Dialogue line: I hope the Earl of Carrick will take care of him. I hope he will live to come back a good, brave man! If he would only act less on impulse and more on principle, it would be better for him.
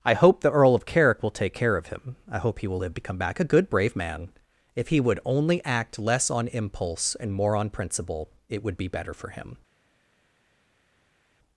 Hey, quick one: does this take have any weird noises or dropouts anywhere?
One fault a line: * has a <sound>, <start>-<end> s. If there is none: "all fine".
all fine